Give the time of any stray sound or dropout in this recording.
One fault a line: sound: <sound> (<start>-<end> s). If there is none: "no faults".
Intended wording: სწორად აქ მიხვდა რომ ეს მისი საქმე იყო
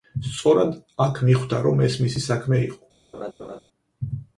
sound: laugh (3.1-3.6 s)